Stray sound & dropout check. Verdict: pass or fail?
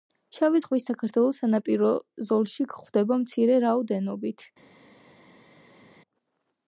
pass